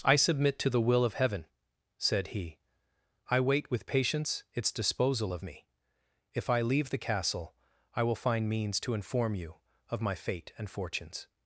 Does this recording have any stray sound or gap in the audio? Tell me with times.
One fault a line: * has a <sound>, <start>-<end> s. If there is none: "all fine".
all fine